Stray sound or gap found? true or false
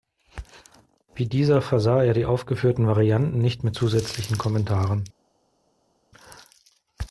false